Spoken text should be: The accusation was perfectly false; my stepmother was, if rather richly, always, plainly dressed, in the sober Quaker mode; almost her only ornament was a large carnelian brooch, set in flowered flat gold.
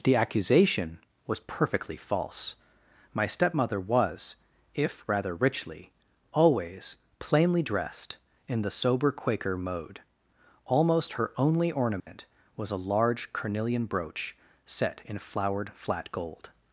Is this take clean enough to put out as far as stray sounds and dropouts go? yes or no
no